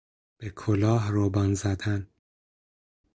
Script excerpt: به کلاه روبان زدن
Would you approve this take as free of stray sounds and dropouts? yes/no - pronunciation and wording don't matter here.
yes